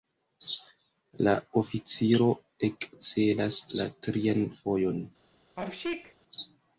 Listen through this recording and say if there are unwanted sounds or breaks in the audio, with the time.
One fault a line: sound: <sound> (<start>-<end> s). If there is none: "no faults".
sound: sneeze (5.6-6.1 s)